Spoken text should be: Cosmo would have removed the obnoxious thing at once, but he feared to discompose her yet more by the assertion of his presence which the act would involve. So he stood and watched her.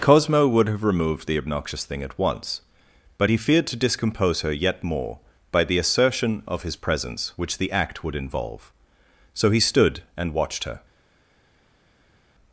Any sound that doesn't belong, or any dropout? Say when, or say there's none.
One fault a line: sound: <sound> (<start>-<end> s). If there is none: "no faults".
no faults